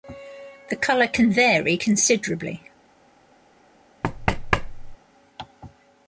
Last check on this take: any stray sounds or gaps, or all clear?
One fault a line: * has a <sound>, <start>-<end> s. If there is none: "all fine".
* has a thud, 4.0-5.0 s